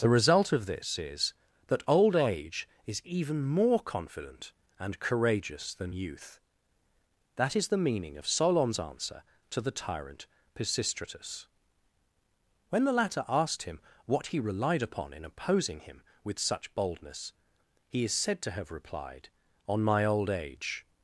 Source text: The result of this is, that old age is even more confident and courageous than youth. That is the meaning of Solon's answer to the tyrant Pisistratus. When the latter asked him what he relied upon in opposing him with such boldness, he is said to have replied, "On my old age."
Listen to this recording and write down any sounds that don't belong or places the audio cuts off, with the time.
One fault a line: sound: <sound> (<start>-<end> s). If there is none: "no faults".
no faults